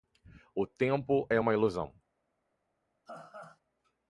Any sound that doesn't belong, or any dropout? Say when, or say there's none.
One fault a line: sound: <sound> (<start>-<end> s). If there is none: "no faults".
sound: laugh (3.1-3.6 s)